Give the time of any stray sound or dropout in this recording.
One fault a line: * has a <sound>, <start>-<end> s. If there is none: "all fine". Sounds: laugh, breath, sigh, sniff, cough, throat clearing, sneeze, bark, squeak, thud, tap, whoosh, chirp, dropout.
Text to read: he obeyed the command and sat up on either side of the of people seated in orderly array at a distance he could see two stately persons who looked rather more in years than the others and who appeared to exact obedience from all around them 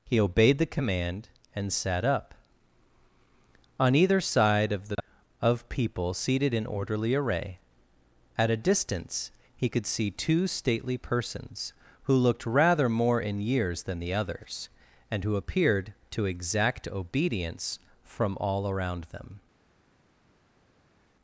all fine